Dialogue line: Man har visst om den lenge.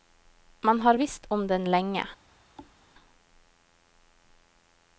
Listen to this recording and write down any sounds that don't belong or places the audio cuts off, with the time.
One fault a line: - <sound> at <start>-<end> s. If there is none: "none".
- thud at 2.6-2.8 s